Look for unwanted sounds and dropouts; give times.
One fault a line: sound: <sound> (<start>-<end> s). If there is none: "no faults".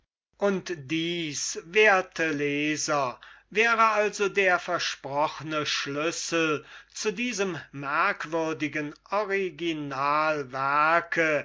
no faults